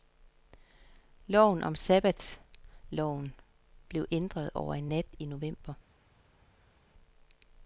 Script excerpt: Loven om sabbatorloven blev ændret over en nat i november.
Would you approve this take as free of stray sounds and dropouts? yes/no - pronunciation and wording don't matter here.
yes